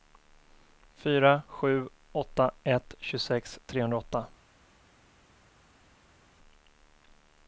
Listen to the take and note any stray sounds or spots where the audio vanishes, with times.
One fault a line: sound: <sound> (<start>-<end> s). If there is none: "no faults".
no faults